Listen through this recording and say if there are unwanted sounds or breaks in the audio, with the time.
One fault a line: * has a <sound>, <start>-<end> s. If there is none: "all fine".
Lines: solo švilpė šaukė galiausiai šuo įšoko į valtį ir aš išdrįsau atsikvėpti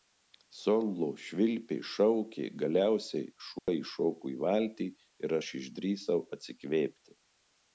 * has a dropout, 3.6-3.7 s